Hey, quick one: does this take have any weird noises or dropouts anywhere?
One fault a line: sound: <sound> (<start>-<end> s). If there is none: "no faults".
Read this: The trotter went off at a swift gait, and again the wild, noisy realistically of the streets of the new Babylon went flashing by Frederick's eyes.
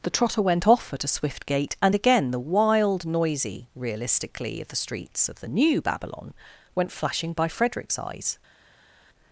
no faults